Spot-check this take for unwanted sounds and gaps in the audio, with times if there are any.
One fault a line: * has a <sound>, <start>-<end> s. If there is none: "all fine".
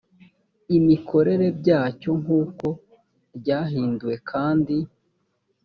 all fine